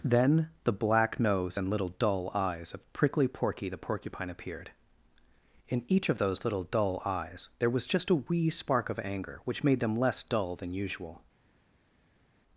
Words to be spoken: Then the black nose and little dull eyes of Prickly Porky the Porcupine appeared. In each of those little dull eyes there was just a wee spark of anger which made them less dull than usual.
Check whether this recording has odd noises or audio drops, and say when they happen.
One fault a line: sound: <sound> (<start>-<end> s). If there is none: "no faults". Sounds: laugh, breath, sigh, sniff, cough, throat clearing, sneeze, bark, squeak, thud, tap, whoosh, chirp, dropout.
no faults